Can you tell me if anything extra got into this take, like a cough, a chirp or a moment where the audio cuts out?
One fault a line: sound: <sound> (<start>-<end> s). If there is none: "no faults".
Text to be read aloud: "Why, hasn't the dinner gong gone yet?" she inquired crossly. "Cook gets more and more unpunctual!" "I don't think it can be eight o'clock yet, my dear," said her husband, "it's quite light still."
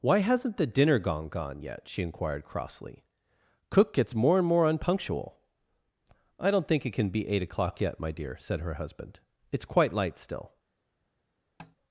sound: tap (11.6-11.8 s)